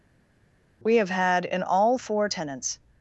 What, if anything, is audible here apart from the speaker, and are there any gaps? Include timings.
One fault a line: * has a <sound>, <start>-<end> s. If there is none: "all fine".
all fine